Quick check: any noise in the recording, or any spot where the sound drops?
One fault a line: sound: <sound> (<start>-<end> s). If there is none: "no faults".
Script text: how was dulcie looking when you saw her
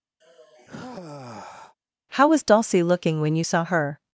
sound: sigh (0.2-1.8 s)